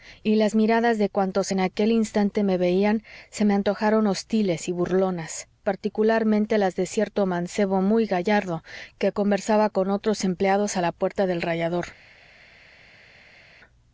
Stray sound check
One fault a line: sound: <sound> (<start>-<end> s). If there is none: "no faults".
no faults